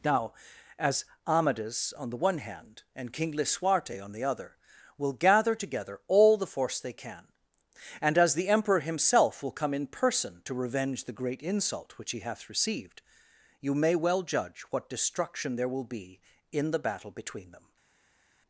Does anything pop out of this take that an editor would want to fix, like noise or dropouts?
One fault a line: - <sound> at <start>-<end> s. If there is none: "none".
none